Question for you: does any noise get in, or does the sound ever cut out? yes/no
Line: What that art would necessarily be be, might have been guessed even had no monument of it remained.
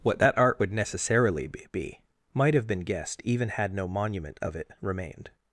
no